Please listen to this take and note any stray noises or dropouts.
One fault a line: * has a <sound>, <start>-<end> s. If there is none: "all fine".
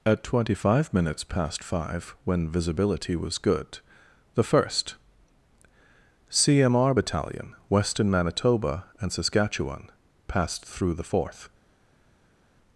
all fine